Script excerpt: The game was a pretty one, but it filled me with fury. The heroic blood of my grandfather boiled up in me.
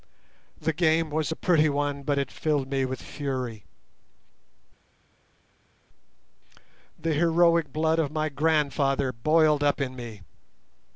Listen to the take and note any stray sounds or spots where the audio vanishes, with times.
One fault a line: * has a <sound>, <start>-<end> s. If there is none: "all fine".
all fine